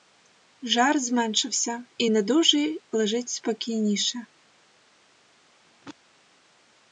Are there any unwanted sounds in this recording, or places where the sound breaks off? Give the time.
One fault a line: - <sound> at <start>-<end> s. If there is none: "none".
- throat clearing at 5.6-6.0 s